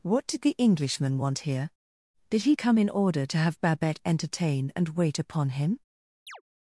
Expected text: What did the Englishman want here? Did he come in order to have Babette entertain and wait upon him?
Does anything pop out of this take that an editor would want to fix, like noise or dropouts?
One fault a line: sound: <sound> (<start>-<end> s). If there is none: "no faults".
sound: chirp (6.3-6.4 s)